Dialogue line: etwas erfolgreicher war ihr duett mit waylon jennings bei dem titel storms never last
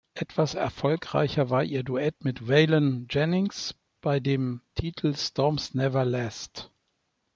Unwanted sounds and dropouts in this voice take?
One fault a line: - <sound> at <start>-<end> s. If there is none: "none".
none